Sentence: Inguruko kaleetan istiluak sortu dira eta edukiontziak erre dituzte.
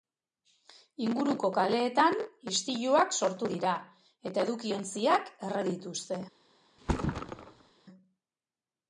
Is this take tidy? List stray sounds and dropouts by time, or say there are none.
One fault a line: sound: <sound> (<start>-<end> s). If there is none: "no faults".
sound: thud (6.8-7.7 s)